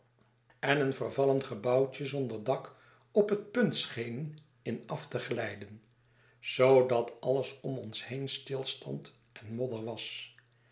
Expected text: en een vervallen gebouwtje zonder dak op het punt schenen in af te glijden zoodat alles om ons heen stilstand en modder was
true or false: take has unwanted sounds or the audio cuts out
false